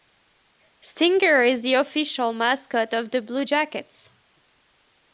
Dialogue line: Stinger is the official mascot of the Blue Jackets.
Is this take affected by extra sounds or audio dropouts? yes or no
no